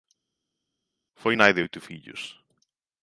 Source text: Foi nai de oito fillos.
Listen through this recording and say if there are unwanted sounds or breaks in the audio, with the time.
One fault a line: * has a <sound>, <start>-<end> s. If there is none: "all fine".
all fine